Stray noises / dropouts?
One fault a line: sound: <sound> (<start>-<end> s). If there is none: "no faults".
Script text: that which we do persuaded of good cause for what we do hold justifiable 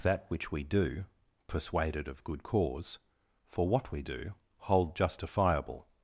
no faults